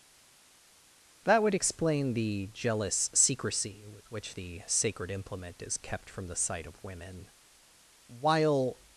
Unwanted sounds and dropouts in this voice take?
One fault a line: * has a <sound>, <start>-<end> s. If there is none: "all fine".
all fine